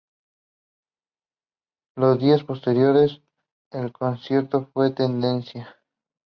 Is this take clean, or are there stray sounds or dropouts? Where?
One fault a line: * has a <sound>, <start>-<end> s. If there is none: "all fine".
all fine